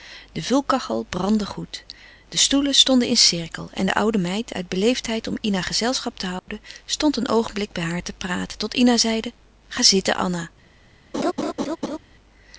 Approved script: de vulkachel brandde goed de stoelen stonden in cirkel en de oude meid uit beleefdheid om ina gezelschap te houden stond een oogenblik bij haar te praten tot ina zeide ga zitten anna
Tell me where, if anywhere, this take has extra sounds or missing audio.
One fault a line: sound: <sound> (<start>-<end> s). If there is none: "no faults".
sound: dropout (6.4-6.5 s)
sound: laugh (11.1-12.0 s)